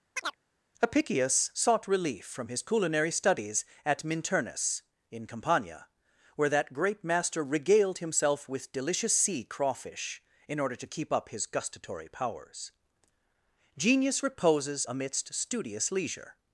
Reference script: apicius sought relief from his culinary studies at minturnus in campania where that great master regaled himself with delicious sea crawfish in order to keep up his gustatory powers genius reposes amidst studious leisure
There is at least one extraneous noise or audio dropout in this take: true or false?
true